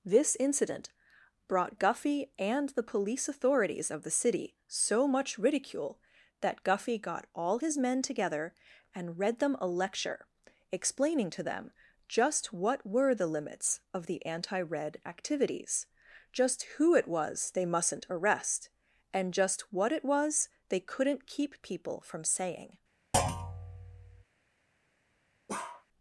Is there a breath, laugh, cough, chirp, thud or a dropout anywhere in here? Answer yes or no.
yes